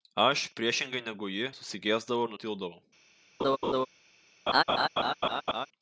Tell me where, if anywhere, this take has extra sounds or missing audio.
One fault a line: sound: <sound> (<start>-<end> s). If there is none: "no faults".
sound: laugh (3.4-3.9 s)
sound: laugh (4.5-5.7 s)